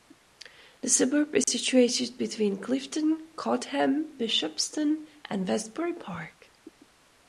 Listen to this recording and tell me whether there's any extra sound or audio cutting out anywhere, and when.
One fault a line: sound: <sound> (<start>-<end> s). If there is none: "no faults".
sound: dropout (1.4-1.5 s)